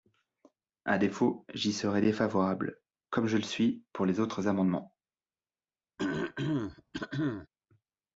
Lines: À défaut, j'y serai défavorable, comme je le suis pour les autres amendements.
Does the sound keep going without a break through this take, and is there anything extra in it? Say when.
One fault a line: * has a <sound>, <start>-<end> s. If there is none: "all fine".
* has a throat clearing, 6.0-7.5 s